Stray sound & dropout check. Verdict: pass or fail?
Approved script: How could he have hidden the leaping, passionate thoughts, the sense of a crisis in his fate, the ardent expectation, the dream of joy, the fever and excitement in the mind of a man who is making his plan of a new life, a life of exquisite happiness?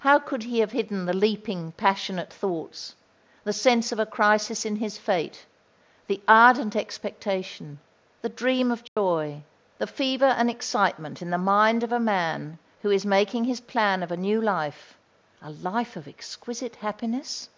fail